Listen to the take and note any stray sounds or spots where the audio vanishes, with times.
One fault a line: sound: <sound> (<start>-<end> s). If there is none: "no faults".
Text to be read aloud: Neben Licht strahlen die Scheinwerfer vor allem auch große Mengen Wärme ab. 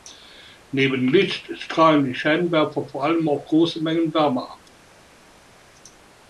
no faults